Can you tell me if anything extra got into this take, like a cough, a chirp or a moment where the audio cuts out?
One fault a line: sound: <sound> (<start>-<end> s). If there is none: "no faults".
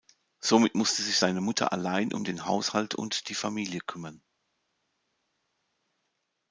no faults